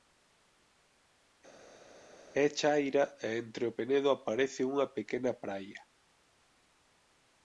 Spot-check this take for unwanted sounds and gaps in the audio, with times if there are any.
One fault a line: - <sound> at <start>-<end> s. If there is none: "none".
none